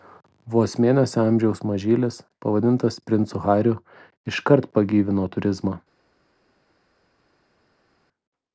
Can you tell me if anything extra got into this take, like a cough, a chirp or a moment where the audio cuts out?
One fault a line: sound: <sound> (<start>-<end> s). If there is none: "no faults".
no faults